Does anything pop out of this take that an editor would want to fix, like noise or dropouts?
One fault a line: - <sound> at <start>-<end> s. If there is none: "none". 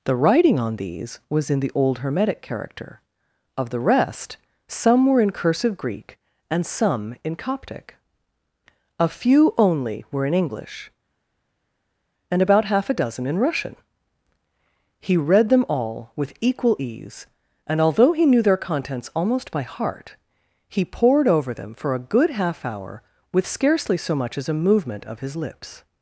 none